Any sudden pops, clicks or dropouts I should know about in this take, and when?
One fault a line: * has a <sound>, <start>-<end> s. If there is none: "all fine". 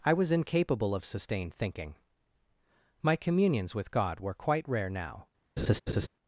* has a laugh, 5.6-6.1 s